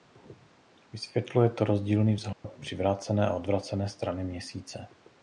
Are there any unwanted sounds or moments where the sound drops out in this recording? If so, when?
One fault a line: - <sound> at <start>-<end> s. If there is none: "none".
- dropout at 2.3-2.4 s